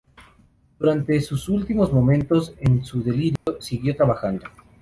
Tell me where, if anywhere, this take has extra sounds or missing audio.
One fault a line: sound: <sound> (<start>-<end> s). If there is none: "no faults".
sound: dropout (3.4-3.5 s)